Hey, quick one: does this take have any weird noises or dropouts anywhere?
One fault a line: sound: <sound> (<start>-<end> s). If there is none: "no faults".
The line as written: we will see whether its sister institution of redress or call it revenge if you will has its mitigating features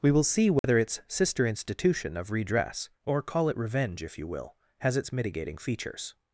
sound: dropout (0.6-0.6 s)